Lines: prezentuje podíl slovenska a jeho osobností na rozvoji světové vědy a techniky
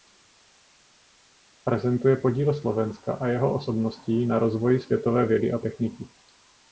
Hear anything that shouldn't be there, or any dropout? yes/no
no